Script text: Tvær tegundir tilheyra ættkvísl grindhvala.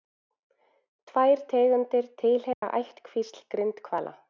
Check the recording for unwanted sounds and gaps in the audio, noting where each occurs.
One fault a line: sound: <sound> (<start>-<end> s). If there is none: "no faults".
sound: dropout (2.5-2.6 s)